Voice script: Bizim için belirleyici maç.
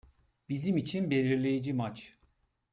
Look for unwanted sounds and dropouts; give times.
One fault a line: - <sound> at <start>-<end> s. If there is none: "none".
none